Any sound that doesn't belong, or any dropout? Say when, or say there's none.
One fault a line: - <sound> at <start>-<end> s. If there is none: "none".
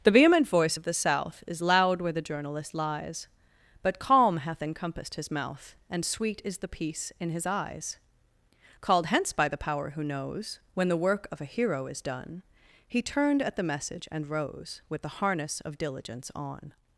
none